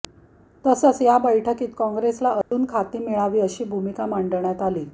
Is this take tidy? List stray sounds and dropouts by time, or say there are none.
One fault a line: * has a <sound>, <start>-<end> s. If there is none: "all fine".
* has a dropout, 2.4-2.5 s